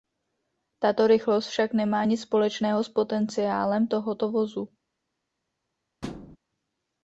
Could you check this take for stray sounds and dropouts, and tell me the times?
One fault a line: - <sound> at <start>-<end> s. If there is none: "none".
- thud at 6.0-6.4 s